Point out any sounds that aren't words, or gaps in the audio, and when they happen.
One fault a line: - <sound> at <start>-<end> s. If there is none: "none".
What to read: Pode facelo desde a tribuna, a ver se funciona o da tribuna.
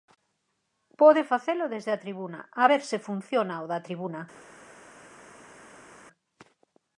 none